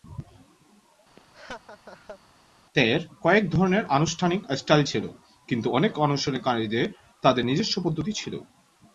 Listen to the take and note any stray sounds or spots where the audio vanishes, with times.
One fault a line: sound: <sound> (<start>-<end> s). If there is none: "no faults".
sound: laugh (1.2-2.2 s)